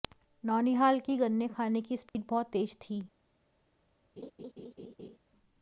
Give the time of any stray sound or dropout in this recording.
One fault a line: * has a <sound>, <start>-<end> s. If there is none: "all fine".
* has a dropout, 2.1-2.1 s
* has a laugh, 4.2-5.2 s